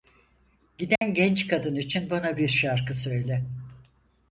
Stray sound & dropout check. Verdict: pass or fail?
fail